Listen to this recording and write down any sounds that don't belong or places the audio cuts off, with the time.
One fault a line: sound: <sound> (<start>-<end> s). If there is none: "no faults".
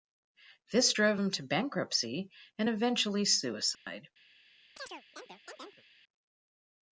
sound: dropout (3.7-3.9 s)
sound: chirp (4.8-5.8 s)